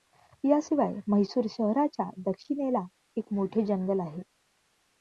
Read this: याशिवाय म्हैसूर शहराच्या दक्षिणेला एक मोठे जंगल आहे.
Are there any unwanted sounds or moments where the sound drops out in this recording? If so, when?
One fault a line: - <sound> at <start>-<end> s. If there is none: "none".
none